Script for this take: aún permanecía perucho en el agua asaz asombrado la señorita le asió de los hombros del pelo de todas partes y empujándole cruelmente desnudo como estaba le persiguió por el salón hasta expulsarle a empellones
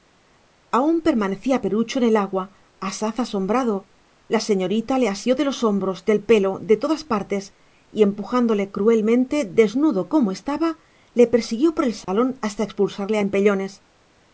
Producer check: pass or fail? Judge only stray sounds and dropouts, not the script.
fail